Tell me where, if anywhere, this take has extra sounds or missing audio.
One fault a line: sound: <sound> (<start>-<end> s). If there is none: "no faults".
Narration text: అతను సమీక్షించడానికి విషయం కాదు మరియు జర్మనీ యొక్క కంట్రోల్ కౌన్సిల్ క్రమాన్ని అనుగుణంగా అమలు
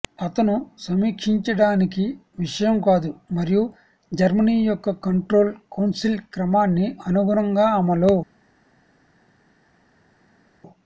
no faults